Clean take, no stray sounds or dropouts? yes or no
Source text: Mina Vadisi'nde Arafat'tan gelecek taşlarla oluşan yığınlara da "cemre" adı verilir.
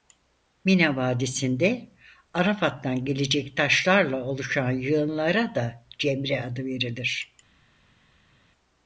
yes